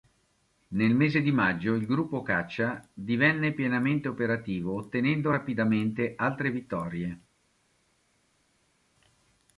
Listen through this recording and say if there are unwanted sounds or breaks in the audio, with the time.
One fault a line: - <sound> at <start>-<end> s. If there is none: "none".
none